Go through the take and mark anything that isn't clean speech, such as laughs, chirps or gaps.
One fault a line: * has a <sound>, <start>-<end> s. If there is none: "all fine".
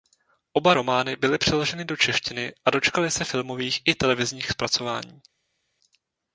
all fine